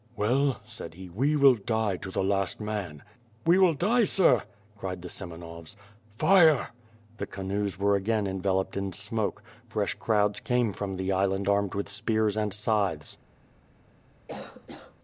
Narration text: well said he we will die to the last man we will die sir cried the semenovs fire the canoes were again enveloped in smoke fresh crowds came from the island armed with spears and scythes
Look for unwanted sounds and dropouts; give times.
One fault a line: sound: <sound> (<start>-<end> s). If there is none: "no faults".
sound: cough (14.3-15.0 s)